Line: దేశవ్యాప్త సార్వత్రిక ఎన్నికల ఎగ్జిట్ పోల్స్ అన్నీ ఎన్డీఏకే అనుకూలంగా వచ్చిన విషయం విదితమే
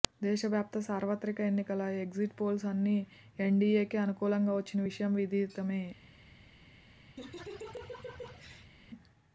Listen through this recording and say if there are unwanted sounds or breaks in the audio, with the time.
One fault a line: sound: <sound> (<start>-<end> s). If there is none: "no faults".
sound: laugh (7.2-8.7 s)